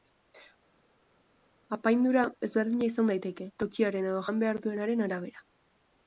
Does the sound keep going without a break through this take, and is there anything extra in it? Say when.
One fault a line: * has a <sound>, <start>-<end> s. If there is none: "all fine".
all fine